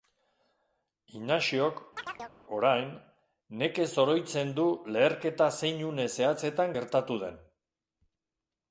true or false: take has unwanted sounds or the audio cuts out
true